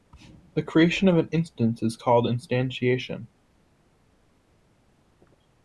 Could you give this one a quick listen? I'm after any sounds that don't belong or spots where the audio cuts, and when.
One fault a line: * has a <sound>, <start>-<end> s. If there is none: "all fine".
all fine